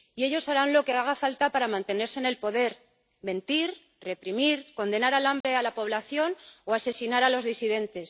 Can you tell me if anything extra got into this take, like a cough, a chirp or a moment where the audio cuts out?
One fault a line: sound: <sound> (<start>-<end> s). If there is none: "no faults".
sound: dropout (5.4-5.4 s)